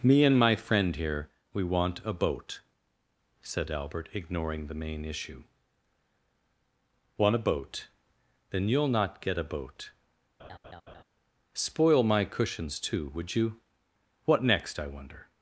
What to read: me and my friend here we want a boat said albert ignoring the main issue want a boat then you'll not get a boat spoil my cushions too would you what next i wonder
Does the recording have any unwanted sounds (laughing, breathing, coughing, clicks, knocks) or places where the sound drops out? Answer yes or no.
yes